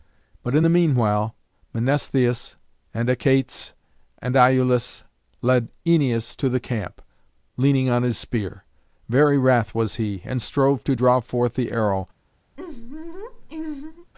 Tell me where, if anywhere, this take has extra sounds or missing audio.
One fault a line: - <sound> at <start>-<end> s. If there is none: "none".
- laugh at 12.6-14.1 s